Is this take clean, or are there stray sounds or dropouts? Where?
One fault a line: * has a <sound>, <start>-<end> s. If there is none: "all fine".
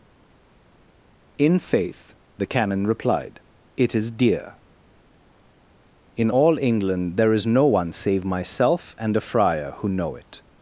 all fine